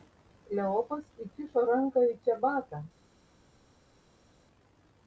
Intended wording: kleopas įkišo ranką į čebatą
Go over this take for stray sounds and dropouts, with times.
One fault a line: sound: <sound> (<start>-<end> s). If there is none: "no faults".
no faults